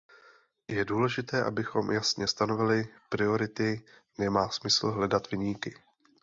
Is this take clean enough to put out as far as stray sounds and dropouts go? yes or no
yes